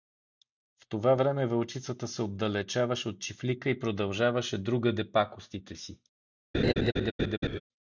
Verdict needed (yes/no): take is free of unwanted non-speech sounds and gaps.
no